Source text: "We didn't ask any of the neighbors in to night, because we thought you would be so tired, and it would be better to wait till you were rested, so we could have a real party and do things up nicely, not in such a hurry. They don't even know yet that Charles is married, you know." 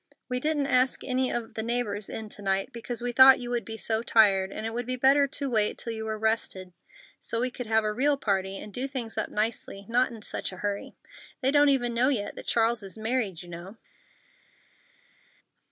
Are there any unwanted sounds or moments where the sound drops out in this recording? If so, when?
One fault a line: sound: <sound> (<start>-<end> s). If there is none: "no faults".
no faults